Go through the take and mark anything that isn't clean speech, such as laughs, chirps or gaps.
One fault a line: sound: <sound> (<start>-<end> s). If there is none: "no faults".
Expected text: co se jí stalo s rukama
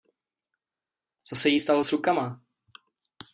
no faults